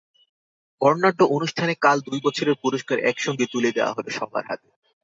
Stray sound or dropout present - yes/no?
no